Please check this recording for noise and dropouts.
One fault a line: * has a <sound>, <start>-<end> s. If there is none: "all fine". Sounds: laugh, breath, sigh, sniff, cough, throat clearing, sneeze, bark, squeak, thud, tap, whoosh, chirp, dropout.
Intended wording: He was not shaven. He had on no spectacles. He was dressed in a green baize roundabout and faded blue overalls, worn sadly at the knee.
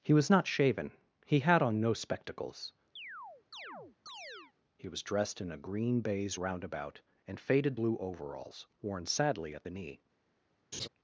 * has a chirp, 3.0-4.5 s
* has a laugh, 10.7-10.9 s